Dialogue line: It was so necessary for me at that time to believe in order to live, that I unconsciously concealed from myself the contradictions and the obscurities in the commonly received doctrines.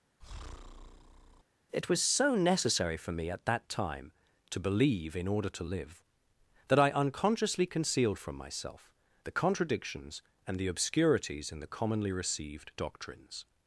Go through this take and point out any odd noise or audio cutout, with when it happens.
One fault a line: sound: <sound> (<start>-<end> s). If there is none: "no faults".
sound: breath (0.2-1.4 s)